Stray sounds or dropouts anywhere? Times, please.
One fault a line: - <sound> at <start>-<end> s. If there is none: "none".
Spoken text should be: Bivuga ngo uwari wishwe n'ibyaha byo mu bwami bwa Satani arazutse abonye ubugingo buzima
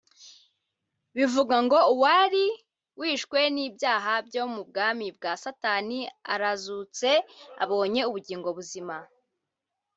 none